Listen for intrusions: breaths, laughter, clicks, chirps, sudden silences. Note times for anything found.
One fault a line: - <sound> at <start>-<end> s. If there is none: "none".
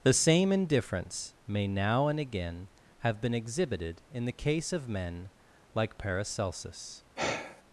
- sigh at 7.2-7.6 s